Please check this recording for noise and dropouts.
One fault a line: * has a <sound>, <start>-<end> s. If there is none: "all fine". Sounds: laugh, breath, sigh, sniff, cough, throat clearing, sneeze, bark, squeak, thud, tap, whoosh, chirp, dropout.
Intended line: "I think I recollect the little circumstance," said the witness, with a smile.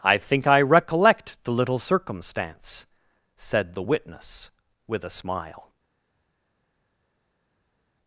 all fine